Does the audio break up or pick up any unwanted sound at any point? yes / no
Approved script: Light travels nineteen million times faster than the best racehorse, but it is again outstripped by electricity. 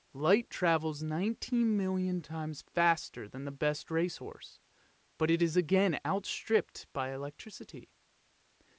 no